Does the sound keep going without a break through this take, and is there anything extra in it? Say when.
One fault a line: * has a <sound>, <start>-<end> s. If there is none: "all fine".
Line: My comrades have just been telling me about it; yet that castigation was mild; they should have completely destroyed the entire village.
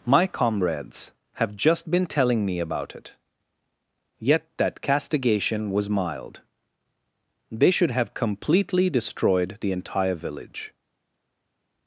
all fine